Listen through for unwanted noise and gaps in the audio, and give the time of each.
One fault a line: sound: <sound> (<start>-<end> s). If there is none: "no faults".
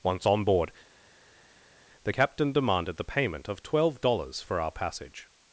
no faults